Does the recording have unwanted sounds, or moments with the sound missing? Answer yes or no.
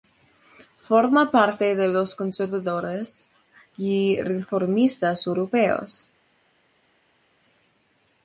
no